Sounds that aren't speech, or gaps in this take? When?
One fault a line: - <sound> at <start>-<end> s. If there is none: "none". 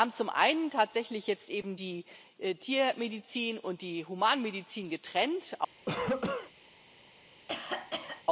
- cough at 5.9-6.5 s
- cough at 7.5-8.2 s